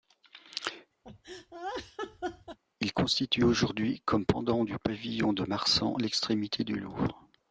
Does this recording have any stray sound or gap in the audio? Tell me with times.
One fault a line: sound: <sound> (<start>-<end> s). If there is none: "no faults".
sound: laugh (1.0-2.6 s)